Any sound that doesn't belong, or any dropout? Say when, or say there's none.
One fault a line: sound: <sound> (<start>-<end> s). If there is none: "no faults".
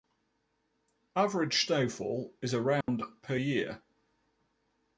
sound: dropout (2.8-2.9 s)